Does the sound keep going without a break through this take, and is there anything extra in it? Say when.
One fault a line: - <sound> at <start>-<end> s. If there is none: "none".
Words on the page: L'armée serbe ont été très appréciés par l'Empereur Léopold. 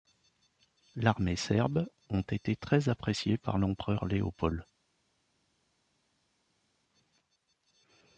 none